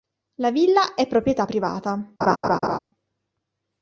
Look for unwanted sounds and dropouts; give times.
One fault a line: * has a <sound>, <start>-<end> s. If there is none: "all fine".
* has a laugh, 2.2-2.8 s